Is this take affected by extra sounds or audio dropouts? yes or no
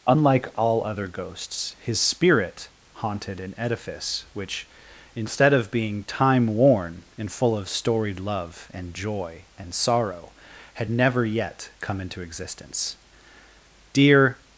no